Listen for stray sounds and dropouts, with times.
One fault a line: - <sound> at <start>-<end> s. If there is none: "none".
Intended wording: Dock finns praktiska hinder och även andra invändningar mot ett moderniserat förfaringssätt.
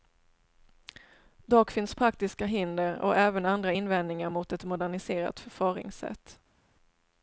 none